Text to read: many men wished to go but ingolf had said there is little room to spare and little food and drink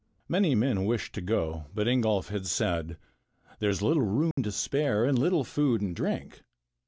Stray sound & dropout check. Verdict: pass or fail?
fail